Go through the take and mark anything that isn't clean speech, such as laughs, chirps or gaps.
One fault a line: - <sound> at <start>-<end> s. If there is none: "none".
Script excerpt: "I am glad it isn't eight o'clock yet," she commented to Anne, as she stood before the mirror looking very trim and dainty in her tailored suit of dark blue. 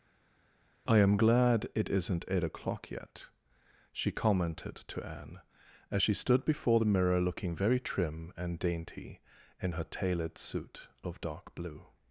none